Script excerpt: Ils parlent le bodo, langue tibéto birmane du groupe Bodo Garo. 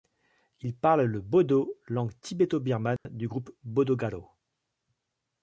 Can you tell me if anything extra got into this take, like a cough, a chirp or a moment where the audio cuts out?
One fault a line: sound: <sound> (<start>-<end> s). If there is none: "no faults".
sound: dropout (3.0-3.1 s)